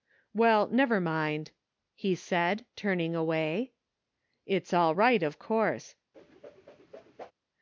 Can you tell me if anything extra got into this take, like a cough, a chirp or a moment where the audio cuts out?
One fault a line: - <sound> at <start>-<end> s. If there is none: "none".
- whoosh at 6.1-7.3 s